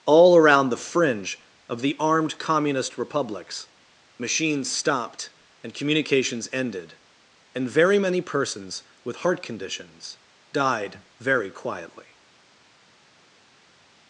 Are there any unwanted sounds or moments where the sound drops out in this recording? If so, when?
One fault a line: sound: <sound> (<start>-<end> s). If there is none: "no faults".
no faults